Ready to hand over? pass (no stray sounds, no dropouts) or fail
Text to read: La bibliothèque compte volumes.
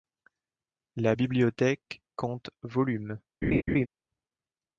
fail